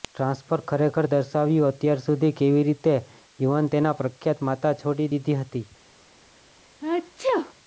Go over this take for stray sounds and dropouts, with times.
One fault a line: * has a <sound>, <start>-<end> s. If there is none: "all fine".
* has a sneeze, 6.8-7.5 s